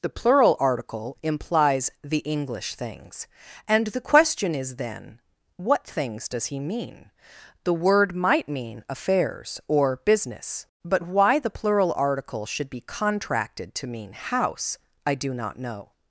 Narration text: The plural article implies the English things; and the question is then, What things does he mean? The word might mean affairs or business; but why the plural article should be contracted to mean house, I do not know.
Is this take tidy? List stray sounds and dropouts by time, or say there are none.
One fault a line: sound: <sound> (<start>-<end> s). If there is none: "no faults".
no faults